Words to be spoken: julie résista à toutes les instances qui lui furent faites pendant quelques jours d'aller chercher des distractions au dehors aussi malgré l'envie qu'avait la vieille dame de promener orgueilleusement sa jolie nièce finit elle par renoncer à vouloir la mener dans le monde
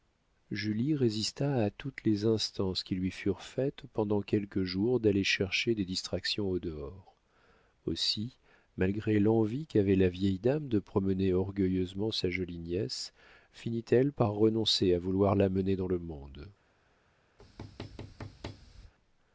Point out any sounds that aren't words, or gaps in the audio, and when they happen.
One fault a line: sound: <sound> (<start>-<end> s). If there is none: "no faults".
sound: thud (17.4-18.9 s)